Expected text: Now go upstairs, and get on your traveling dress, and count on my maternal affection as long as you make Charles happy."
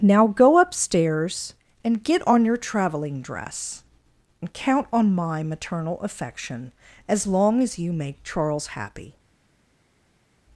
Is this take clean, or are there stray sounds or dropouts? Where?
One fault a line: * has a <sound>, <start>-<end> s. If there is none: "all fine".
all fine